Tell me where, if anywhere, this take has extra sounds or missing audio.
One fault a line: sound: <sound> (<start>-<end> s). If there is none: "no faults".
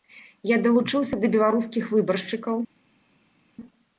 no faults